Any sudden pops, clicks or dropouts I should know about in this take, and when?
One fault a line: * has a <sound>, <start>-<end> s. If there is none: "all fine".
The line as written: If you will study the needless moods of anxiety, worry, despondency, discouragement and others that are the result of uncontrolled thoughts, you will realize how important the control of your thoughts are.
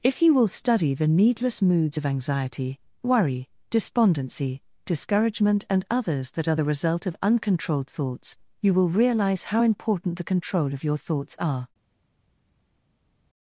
all fine